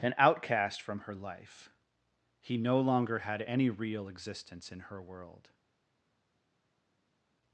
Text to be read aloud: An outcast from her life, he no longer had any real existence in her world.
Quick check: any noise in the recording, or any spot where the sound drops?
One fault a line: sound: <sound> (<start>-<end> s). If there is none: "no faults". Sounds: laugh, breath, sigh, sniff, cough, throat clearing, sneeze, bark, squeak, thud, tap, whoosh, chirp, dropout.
no faults